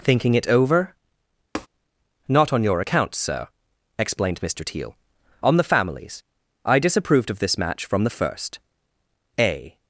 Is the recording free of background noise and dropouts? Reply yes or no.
no